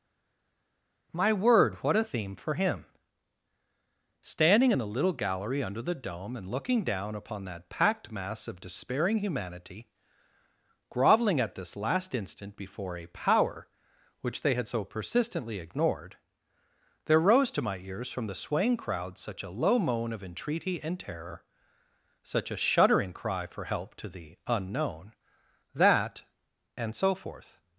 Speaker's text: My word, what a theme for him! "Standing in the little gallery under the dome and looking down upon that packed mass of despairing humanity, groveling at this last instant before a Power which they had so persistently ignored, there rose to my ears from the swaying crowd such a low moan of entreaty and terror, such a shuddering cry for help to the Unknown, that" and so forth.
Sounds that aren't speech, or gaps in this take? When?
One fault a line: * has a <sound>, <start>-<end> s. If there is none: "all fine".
all fine